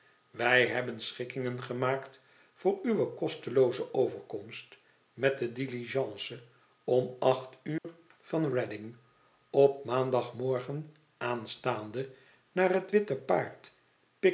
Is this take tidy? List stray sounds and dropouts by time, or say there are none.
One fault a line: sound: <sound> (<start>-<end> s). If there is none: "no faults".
sound: dropout (7.8-7.8 s)